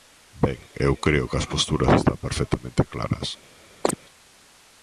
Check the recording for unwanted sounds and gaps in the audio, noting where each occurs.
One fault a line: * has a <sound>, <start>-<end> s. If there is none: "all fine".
* has a chirp, 3.8-4.0 s